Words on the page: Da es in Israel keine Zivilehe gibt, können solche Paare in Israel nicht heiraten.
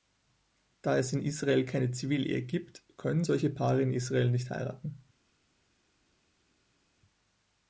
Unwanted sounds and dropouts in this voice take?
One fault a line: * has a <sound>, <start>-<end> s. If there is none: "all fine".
all fine